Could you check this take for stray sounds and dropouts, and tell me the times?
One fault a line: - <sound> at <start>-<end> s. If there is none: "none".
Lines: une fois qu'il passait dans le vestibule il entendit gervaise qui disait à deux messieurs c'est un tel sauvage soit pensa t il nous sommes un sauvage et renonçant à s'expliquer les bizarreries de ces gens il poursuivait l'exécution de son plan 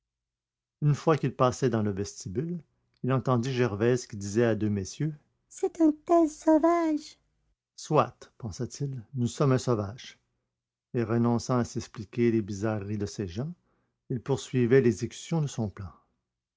none